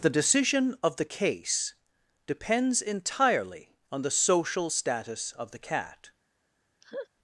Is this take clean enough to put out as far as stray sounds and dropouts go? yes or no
no